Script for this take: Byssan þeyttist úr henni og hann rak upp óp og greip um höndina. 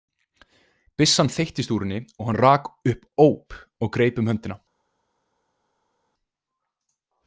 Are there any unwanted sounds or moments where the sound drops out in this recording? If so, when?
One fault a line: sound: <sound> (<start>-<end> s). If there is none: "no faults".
no faults